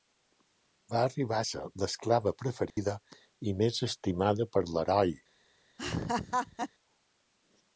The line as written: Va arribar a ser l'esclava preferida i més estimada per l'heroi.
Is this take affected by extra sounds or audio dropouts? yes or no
yes